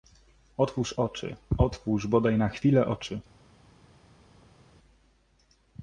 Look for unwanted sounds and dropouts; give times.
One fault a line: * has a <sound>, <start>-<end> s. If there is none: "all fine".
all fine